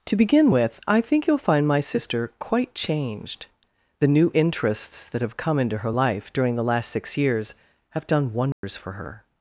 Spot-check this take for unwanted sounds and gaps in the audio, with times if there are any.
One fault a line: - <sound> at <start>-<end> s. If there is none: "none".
- dropout at 8.5-8.6 s